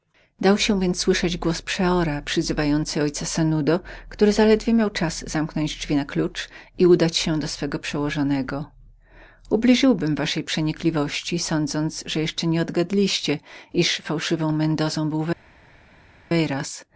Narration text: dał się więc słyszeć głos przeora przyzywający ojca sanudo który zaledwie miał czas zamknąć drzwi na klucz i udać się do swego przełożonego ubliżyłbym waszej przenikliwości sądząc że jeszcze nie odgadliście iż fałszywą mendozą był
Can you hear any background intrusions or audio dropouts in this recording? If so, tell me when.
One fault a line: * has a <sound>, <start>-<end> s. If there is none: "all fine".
all fine